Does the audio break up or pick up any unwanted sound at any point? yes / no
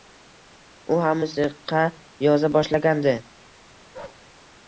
yes